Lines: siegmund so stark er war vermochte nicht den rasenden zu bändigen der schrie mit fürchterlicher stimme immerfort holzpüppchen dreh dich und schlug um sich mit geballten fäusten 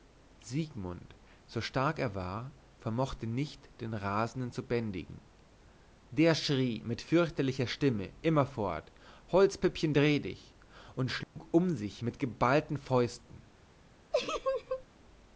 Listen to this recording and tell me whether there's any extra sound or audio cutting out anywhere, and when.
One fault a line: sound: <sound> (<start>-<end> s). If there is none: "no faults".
sound: dropout (11.2-11.4 s)
sound: laugh (14.1-14.8 s)